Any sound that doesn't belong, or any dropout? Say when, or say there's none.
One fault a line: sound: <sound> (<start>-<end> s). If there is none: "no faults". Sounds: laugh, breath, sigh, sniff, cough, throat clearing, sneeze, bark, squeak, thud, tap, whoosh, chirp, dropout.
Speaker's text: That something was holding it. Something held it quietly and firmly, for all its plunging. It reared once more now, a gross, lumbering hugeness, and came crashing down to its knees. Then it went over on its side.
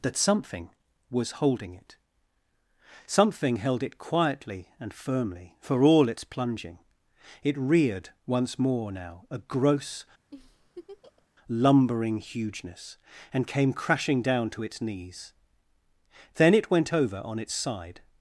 sound: laugh (10.3-11.3 s)